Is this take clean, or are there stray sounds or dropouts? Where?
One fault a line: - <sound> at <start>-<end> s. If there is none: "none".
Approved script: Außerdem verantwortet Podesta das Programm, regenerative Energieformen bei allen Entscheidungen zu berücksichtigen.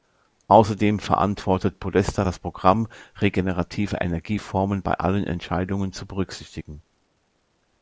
none